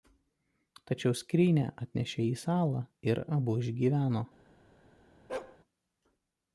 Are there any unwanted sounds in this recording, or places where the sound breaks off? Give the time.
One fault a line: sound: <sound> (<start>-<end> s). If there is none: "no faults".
sound: bark (5.3-5.6 s)